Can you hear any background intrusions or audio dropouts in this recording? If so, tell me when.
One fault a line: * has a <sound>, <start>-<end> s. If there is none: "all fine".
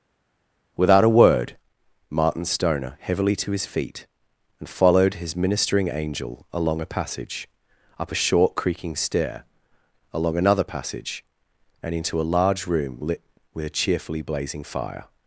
all fine